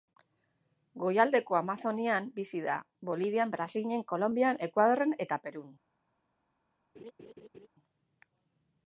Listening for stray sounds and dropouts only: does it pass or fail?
fail